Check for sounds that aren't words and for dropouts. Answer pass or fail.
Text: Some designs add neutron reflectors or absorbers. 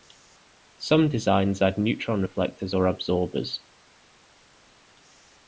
pass